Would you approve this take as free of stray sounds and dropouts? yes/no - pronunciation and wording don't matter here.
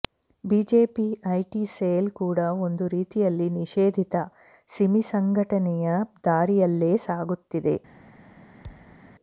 no